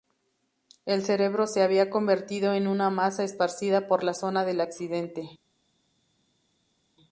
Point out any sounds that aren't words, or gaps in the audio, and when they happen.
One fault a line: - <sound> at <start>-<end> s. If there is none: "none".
none